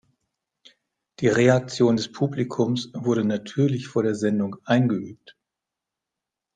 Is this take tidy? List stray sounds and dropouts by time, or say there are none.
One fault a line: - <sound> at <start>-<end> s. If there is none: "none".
none